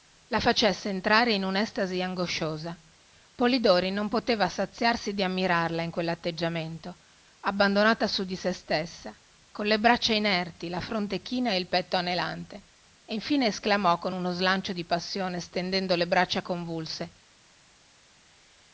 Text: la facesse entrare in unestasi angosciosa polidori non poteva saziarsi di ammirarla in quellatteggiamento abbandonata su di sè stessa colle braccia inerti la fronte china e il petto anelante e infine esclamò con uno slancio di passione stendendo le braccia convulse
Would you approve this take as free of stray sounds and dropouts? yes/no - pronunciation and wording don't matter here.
yes